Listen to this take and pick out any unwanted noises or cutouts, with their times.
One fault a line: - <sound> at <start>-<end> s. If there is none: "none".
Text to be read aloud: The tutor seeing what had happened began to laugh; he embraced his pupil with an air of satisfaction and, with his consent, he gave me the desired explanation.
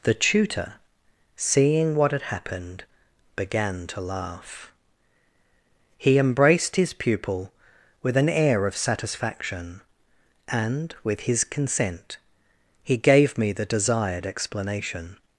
none